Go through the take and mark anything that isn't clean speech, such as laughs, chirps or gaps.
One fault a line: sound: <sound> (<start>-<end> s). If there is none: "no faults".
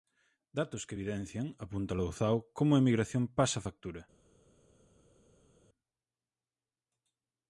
no faults